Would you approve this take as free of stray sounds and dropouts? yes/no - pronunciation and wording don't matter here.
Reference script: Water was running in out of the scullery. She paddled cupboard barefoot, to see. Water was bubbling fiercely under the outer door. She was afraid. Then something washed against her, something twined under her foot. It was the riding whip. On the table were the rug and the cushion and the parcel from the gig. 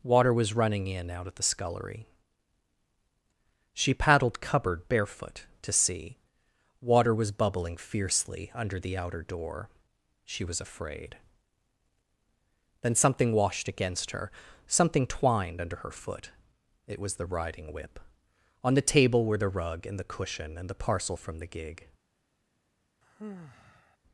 no